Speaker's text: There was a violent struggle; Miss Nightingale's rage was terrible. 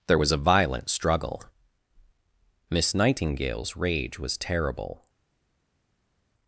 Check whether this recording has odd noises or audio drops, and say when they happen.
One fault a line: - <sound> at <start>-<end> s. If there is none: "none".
none